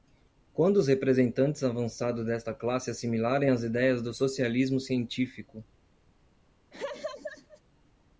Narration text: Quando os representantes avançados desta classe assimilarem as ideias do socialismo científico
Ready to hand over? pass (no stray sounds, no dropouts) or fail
fail